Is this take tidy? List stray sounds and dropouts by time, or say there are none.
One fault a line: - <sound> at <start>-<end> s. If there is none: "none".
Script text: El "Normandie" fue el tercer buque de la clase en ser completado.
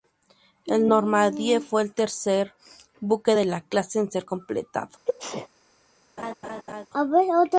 - sneeze at 5.1-5.5 s
- laugh at 6.2-6.9 s